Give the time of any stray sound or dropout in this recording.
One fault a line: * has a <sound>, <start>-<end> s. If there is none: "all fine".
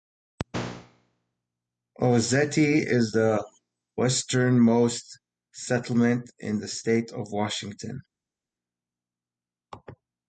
all fine